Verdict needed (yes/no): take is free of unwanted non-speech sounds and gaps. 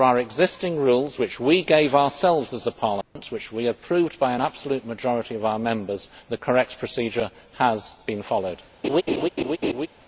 no